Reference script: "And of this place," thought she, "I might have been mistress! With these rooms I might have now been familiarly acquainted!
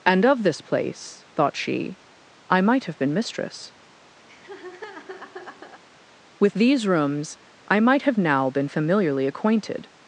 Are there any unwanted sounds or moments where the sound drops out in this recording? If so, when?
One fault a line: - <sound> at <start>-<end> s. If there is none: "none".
- laugh at 4.3-5.8 s